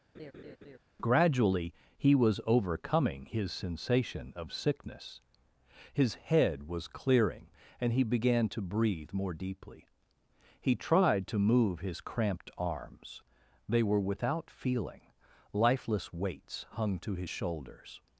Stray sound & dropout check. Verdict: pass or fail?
fail